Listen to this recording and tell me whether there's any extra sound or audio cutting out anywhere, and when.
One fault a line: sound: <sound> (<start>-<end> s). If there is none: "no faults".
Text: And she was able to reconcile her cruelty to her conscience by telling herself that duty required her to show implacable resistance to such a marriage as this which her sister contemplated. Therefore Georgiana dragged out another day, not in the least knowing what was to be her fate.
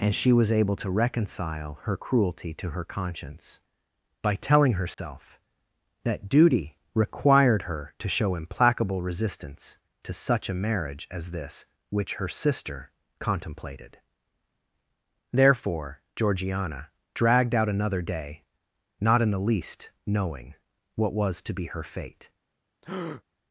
sound: dropout (4.9-5.0 s)
sound: breath (22.8-23.2 s)